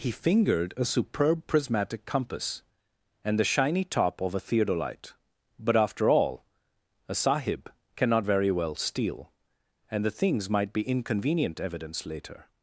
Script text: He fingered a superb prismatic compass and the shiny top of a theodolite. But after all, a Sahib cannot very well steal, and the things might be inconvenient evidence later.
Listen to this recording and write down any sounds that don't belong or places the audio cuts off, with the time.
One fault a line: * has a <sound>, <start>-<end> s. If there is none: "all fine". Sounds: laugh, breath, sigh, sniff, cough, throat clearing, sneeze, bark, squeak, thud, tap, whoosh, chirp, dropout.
all fine